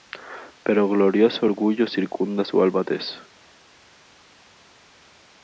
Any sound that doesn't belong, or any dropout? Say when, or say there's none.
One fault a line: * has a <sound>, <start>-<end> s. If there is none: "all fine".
all fine